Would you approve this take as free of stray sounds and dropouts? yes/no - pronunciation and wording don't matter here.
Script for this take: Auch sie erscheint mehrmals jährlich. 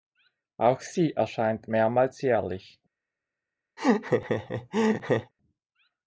no